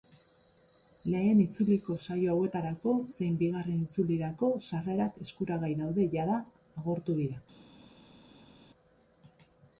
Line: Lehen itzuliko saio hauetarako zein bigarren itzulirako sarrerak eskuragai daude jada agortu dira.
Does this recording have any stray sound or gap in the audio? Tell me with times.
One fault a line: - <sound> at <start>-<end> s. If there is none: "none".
none